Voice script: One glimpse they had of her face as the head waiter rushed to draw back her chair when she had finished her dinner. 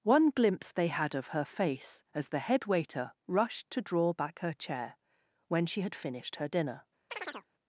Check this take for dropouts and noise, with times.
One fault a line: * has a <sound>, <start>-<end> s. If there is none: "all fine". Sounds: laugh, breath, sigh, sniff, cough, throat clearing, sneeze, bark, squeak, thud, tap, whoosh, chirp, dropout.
* has a chirp, 7.1-7.5 s